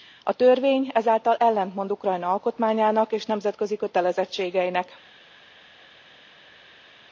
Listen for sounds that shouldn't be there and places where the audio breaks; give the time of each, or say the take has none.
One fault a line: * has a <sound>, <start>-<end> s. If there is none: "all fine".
all fine